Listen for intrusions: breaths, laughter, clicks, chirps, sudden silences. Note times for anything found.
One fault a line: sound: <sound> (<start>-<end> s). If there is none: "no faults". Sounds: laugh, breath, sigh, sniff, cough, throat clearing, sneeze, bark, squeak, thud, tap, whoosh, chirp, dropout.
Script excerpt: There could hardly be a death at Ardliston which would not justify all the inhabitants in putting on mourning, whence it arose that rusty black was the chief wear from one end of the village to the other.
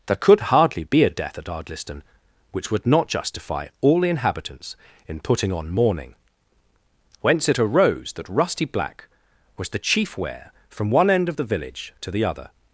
no faults